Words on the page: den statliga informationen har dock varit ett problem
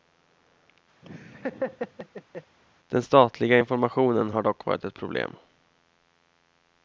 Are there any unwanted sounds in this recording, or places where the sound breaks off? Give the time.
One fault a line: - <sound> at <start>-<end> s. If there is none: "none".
- laugh at 1.0-2.6 s